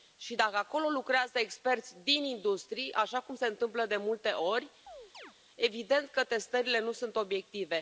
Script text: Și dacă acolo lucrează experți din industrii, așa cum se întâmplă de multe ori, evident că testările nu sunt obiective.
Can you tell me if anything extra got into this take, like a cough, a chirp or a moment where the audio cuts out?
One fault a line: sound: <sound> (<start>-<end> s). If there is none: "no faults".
sound: chirp (4.9-5.3 s)